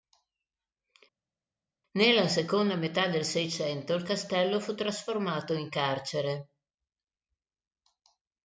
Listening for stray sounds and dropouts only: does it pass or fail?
pass